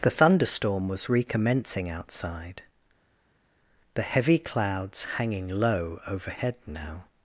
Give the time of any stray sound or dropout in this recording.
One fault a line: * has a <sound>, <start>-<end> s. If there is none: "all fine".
all fine